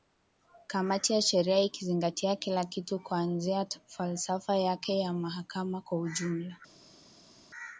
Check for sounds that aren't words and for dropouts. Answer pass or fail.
pass